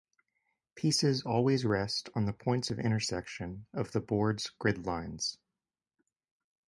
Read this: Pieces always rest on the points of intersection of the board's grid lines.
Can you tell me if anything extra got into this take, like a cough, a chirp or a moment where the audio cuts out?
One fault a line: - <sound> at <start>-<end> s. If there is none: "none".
none